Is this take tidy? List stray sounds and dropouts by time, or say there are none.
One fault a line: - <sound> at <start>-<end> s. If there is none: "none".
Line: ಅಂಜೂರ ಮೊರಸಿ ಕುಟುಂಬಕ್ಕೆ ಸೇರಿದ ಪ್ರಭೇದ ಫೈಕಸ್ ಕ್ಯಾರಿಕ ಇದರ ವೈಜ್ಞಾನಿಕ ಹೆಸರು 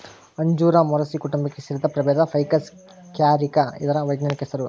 none